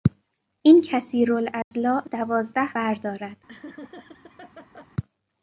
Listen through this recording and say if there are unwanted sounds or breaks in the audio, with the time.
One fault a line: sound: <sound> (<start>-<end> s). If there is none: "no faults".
sound: dropout (1.6-1.7 s)
sound: laugh (3.5-4.9 s)